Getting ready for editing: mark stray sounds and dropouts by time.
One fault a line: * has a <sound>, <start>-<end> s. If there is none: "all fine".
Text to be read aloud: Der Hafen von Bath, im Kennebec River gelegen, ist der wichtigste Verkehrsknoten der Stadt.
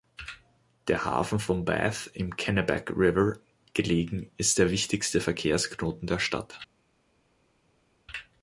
all fine